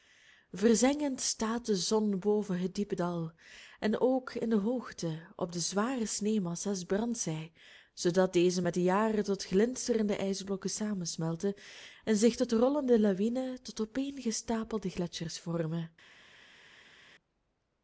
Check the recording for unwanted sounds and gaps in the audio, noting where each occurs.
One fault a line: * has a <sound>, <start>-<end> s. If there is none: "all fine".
all fine